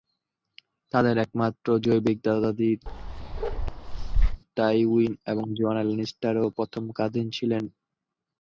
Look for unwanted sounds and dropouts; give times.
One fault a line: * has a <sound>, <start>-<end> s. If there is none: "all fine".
* has a bark, 2.9-4.4 s